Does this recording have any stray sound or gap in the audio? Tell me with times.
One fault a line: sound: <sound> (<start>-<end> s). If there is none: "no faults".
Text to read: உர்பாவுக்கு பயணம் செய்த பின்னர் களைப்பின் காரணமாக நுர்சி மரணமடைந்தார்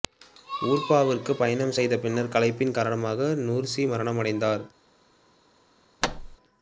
sound: thud (6.0-6.4 s)